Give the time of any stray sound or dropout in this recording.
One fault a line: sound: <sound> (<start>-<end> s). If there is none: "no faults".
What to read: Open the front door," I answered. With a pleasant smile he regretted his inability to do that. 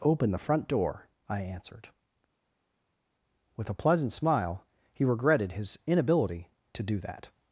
no faults